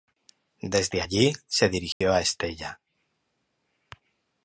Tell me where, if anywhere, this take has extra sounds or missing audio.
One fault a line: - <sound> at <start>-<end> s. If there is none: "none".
- dropout at 1.9-2.0 s